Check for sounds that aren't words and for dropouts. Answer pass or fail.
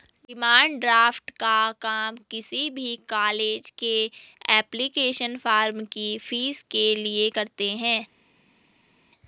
pass